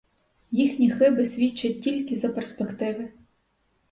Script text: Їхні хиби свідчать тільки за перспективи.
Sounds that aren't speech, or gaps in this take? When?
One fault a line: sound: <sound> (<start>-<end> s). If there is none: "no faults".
no faults